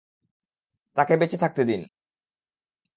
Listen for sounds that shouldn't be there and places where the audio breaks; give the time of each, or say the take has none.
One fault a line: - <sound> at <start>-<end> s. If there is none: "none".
none